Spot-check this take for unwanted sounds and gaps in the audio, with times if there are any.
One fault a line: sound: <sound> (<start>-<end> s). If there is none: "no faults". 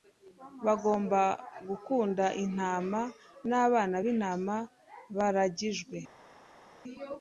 no faults